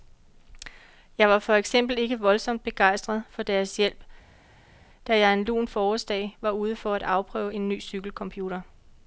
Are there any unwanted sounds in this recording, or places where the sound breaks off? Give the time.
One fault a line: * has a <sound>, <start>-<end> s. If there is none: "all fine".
all fine